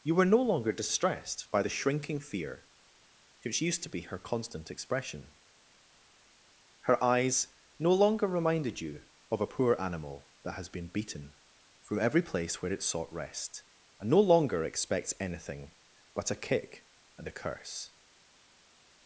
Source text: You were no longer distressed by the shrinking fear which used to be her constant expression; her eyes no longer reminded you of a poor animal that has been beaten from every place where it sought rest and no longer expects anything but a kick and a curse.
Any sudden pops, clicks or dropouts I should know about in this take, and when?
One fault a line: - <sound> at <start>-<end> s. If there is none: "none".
none